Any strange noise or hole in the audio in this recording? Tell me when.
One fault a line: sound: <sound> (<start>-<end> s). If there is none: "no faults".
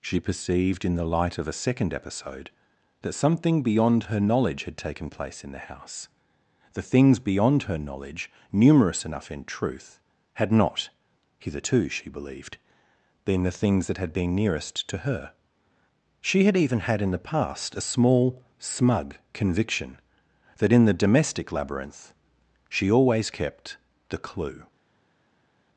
no faults